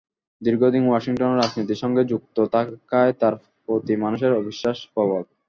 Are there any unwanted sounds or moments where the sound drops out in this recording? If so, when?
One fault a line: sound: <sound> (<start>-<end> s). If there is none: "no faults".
no faults